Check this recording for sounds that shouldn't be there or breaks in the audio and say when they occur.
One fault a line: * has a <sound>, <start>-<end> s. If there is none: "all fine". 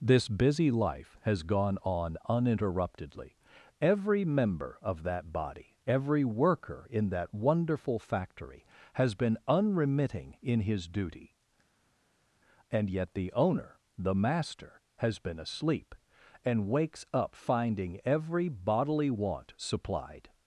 all fine